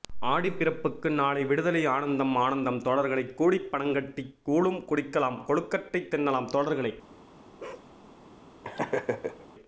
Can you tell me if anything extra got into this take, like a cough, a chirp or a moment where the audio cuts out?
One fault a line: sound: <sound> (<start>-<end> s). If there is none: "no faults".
sound: bark (7.6-7.9 s)
sound: laugh (8.6-9.5 s)